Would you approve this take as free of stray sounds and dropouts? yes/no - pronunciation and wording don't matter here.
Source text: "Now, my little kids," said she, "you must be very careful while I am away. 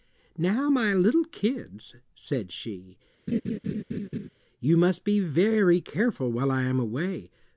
no